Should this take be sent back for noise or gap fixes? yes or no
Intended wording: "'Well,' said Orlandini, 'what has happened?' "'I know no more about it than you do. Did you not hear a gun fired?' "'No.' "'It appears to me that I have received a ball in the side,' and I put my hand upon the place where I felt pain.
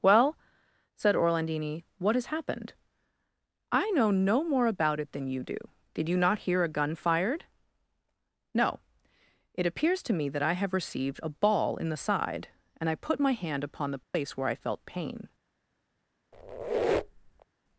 yes